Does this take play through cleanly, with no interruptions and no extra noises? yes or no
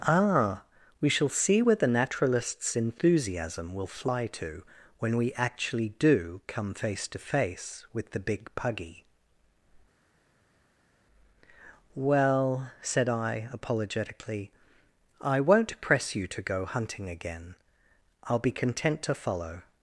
yes